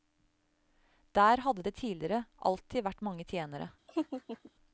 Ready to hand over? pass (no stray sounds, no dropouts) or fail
fail